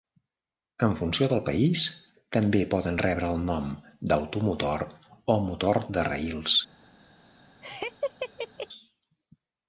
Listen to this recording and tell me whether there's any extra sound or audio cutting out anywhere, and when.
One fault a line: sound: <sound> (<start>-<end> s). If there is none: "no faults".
sound: laugh (7.6-8.7 s)